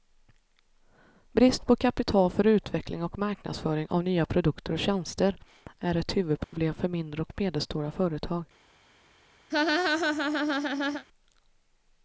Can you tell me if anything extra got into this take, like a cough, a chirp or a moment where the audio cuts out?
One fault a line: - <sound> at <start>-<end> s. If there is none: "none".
- dropout at 6.4-6.5 s
- laugh at 9.5-11.1 s